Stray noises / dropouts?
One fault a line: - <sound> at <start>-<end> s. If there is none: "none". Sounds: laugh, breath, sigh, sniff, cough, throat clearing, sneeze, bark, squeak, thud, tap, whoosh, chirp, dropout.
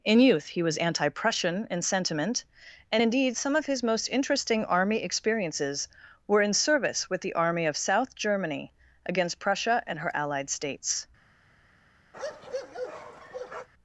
- bark at 12.1-13.7 s